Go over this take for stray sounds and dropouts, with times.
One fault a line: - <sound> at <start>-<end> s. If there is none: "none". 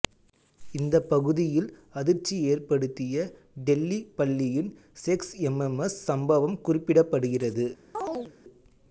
- chirp at 7.9-8.3 s